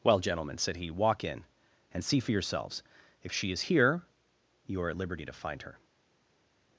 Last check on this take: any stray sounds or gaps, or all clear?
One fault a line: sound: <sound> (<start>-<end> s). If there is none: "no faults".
no faults